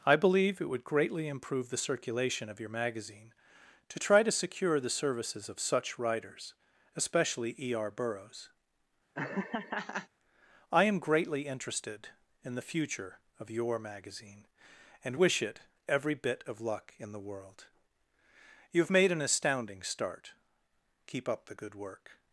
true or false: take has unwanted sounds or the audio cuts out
true